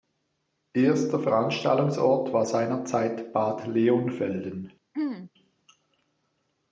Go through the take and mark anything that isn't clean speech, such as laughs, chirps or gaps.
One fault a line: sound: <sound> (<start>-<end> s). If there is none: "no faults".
sound: throat clearing (4.9-5.3 s)